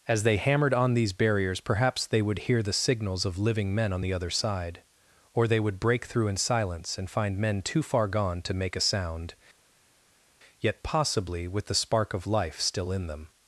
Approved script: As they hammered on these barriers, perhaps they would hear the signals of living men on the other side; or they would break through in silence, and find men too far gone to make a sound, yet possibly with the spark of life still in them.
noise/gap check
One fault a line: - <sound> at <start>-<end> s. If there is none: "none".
none